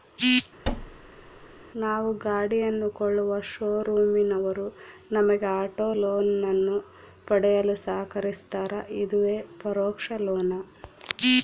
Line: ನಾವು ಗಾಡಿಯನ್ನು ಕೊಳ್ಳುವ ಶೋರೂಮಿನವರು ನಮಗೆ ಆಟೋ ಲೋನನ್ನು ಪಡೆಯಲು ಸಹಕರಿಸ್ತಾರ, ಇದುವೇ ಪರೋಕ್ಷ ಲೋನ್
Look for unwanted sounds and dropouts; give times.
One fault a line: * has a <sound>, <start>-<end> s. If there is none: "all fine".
* has a thud, 0.6-1.6 s